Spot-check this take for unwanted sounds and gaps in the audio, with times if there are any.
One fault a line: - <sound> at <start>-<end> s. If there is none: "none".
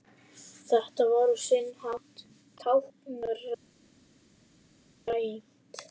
none